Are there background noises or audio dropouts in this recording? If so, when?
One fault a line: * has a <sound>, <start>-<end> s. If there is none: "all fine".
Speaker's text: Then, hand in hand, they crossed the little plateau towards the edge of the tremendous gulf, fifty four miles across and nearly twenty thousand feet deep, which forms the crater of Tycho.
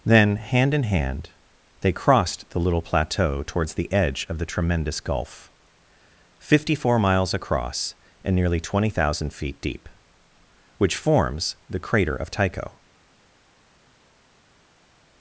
all fine